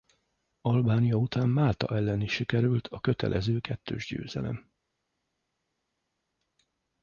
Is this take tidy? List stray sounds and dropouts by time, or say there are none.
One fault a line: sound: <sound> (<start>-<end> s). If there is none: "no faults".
no faults